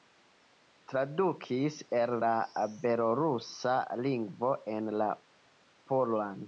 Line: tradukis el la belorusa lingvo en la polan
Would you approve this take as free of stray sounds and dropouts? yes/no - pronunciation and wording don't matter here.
yes